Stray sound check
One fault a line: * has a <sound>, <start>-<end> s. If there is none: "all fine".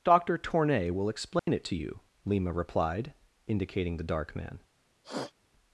* has a dropout, 1.4-1.5 s
* has a sniff, 5.0-5.3 s